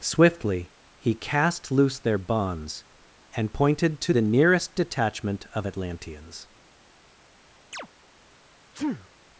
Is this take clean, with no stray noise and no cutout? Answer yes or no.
no